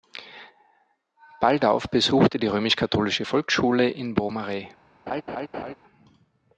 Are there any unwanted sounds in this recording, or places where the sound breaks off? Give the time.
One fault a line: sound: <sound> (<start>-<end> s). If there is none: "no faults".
sound: laugh (5.1-5.7 s)